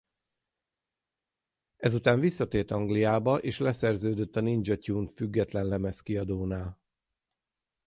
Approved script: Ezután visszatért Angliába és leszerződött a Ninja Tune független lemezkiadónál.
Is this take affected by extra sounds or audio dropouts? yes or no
no